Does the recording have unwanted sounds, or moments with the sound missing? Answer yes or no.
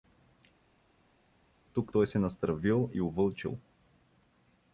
no